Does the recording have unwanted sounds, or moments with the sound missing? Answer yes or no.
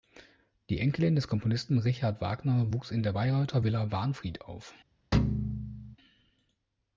yes